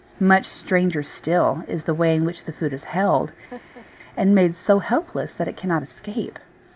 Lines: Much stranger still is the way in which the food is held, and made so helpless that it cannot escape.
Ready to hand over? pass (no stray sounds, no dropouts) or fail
fail